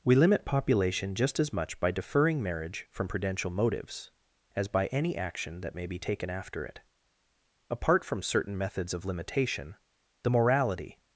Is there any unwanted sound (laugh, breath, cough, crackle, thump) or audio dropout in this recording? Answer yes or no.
no